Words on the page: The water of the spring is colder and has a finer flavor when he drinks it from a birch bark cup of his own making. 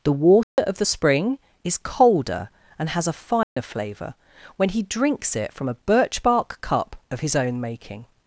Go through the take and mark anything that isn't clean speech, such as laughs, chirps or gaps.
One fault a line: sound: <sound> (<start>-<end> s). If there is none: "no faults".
sound: dropout (0.4-0.6 s)
sound: dropout (3.4-3.6 s)